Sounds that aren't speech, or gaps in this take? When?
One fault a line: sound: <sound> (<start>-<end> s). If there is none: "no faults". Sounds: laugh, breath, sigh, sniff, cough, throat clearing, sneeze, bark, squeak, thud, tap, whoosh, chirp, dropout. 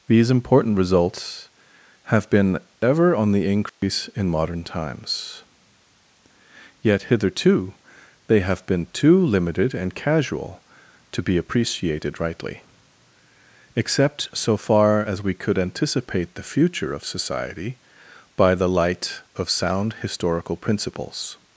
sound: dropout (3.7-3.8 s)